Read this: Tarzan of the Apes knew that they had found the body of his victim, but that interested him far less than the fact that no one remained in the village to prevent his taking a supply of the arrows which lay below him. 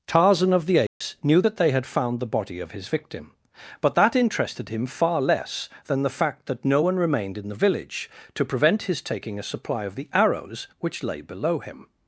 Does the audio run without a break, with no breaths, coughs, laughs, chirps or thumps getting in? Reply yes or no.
no